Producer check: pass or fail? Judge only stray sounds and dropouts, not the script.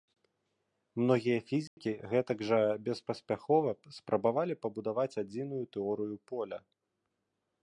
fail